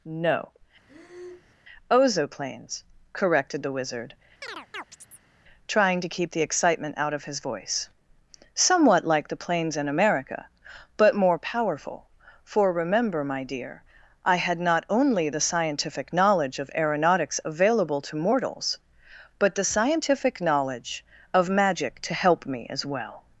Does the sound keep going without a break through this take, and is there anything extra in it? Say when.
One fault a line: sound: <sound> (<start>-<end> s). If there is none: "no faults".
sound: breath (0.9-1.5 s)
sound: chirp (4.4-5.3 s)